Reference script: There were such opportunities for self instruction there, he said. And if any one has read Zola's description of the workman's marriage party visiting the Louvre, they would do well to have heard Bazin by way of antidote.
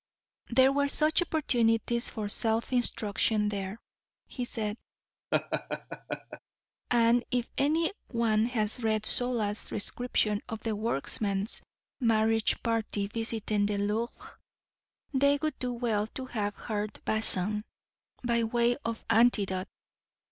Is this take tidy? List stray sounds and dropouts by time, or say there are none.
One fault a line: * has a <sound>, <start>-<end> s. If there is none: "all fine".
* has a laugh, 5.3-6.4 s